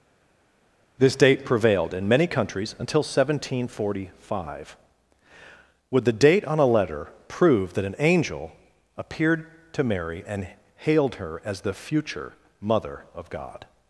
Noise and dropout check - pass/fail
pass